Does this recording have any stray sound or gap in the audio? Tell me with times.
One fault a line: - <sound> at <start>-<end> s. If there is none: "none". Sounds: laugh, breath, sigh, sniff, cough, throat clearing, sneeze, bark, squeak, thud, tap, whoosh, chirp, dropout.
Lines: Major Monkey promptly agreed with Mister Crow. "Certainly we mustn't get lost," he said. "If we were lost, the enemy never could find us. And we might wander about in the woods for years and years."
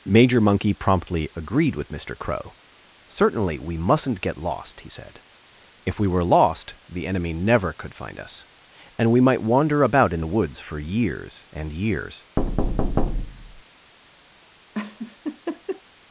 - thud at 12.4-13.6 s
- laugh at 14.7-15.8 s